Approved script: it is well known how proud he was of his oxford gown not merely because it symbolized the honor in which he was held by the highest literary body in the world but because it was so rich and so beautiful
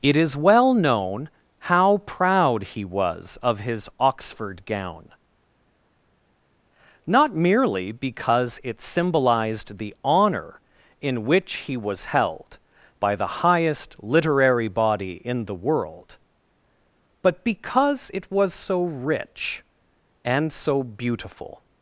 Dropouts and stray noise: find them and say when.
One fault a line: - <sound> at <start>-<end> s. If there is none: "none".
none